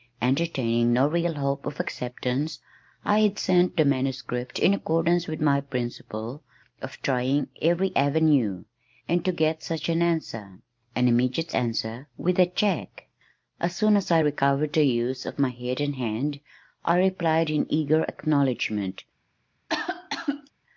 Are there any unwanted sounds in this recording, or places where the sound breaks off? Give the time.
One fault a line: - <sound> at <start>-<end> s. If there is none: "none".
- cough at 19.7-20.5 s